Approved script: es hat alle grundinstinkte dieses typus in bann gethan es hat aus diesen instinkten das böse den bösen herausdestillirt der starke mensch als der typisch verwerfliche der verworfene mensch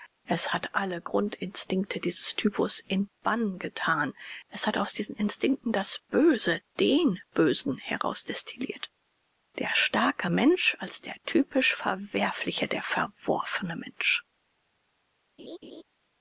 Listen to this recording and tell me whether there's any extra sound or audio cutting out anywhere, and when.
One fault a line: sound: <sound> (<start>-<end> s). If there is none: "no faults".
sound: laugh (15.4-15.8 s)